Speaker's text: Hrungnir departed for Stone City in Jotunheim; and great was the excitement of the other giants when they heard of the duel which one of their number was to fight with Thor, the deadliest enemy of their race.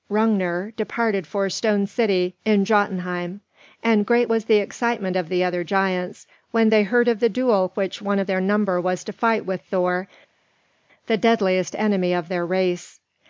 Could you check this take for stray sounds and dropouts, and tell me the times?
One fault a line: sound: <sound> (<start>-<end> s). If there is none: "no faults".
no faults